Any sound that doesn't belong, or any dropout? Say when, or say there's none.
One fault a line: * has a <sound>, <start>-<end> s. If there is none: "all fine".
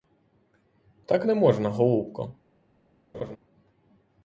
* has a laugh, 3.1-3.4 s